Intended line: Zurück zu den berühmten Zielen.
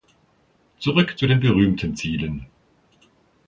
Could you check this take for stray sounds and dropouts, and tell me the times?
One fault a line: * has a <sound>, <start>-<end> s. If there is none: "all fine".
all fine